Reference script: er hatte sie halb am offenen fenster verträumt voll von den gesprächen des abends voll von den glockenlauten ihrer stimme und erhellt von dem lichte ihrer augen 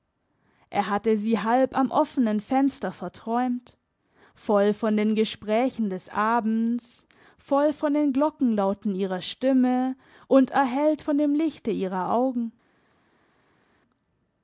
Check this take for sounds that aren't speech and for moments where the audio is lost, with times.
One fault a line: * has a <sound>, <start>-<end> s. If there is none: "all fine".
all fine